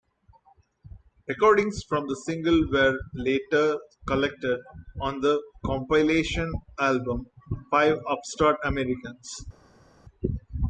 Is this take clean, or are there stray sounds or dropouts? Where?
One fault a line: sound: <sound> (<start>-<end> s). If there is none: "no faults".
no faults